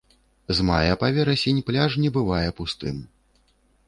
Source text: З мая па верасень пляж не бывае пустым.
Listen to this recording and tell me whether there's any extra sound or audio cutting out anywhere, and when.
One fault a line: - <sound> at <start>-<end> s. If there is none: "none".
none